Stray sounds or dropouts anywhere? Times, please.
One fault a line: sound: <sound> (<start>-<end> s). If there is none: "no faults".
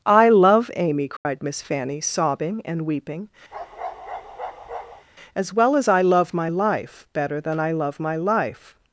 sound: dropout (1.2-1.3 s)
sound: bark (3.5-5.1 s)